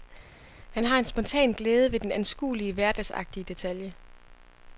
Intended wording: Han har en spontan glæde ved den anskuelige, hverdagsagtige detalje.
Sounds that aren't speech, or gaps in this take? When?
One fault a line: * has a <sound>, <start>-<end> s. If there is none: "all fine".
all fine